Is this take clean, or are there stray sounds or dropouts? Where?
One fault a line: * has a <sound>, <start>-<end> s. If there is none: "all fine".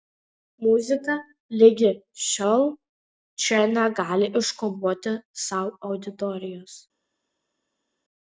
all fine